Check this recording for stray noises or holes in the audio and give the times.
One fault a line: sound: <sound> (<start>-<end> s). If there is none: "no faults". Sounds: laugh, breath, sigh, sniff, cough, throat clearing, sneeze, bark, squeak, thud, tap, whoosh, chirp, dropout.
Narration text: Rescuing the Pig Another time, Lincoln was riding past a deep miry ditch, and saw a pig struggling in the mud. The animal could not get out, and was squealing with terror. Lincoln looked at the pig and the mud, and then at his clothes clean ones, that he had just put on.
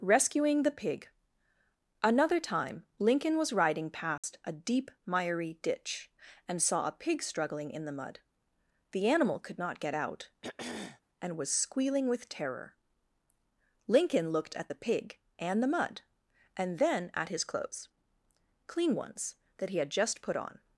sound: dropout (4.2-4.2 s)
sound: throat clearing (10.4-11.0 s)